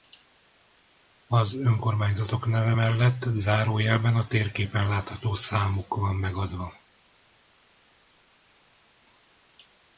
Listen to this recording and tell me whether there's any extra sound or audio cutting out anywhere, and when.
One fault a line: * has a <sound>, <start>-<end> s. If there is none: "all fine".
all fine